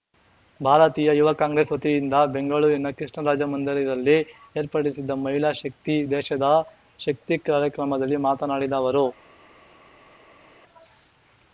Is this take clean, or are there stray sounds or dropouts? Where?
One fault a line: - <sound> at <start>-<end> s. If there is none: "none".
none